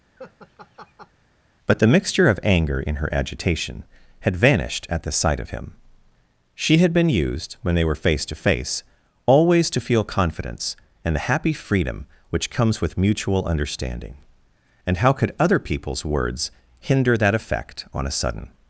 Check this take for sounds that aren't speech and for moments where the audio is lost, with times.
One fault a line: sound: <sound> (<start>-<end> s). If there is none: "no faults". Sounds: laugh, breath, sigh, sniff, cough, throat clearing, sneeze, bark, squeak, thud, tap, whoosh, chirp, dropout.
sound: laugh (0.2-1.1 s)